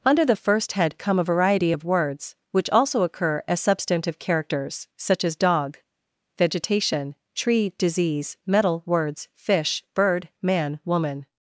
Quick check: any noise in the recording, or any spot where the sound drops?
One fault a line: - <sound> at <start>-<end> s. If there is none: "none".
none